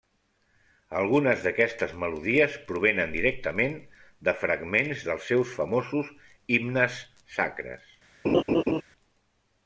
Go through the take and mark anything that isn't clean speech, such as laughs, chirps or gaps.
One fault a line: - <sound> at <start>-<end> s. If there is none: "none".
- laugh at 8.2-8.8 s